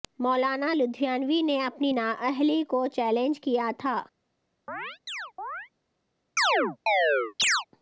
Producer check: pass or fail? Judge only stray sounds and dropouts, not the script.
fail